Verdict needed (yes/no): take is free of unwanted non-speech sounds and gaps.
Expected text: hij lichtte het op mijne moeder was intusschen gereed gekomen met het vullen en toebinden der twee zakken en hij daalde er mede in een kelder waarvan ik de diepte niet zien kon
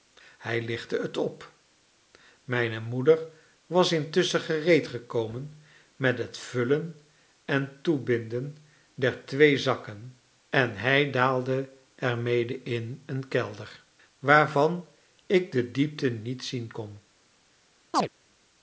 no